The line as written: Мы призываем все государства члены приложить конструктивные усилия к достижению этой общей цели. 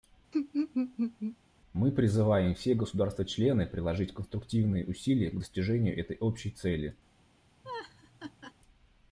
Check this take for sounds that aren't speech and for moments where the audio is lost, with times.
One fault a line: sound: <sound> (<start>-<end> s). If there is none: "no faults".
sound: laugh (0.3-1.4 s)
sound: laugh (7.6-8.5 s)